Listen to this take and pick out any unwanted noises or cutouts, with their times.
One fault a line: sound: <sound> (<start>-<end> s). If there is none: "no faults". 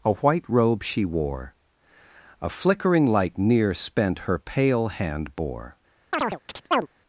sound: chirp (6.1-6.9 s)